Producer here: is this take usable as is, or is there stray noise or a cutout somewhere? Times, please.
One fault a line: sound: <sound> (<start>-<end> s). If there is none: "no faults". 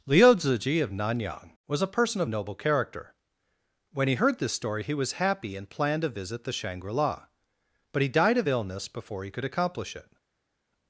no faults